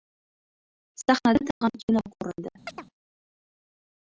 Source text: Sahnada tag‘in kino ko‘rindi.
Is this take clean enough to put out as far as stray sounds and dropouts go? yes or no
no